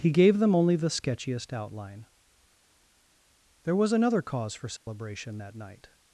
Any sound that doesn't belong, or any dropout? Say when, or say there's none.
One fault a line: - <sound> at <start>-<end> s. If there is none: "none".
- dropout at 4.8-4.9 s